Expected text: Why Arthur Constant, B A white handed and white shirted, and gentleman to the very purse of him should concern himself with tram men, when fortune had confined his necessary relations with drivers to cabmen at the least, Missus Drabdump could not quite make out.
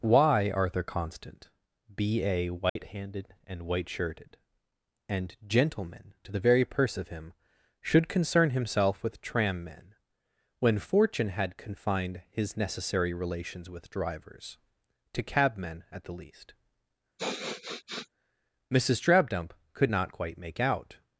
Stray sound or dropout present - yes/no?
yes